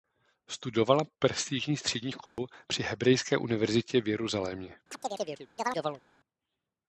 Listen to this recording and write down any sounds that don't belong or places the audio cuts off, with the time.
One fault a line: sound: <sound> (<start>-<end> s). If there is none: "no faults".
sound: dropout (2.3-2.4 s)
sound: chirp (4.9-6.0 s)